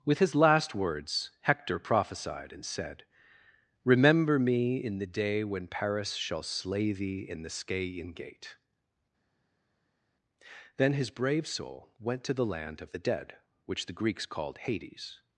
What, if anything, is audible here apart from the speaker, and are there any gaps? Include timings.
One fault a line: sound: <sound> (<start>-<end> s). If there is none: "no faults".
no faults